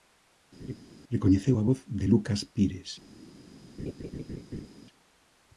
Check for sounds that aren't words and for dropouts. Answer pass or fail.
fail